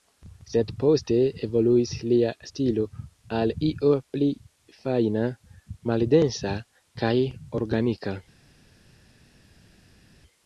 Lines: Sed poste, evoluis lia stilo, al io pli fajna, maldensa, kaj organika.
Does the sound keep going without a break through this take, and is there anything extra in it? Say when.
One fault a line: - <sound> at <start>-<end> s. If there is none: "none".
none